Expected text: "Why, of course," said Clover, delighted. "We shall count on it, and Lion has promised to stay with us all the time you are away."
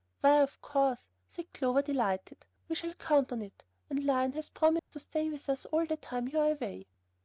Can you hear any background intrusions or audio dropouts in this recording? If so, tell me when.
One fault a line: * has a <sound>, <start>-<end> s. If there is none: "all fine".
* has a dropout, 4.8-4.9 s